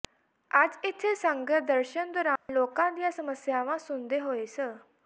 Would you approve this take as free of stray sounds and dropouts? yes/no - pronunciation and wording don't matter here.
no